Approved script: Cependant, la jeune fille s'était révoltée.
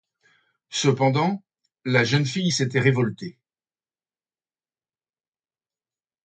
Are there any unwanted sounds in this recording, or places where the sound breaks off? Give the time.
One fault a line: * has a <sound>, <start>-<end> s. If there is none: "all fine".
all fine